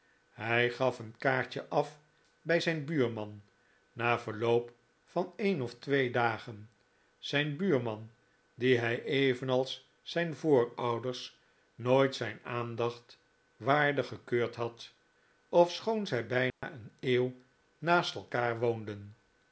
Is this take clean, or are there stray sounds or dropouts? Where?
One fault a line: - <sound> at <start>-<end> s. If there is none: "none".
- dropout at 16.5-16.6 s